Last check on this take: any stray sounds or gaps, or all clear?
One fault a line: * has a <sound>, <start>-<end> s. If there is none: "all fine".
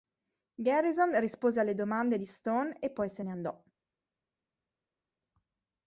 all fine